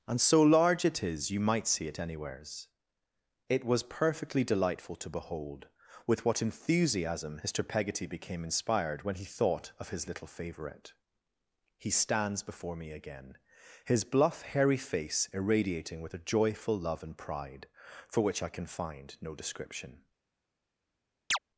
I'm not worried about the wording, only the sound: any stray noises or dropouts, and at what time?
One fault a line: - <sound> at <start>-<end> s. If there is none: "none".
- chirp at 21.3-21.4 s